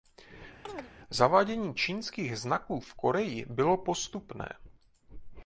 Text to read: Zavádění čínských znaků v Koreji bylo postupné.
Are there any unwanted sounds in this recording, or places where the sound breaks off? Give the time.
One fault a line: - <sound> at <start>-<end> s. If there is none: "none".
- chirp at 0.7-0.9 s